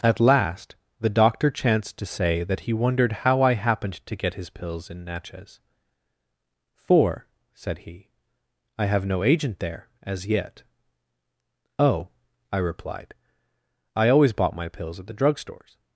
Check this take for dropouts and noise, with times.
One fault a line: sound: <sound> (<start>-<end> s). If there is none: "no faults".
no faults